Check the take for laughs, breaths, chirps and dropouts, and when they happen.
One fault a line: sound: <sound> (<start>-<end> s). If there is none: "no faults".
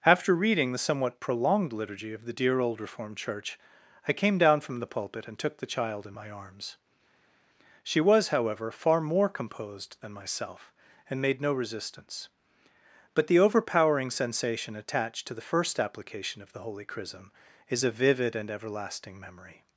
no faults